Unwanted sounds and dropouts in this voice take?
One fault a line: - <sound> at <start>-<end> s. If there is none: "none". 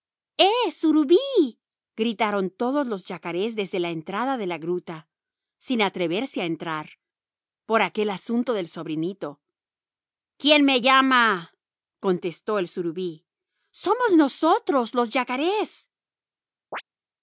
- chirp at 16.7-16.8 s